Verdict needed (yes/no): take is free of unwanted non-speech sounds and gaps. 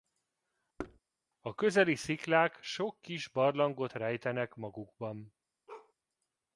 no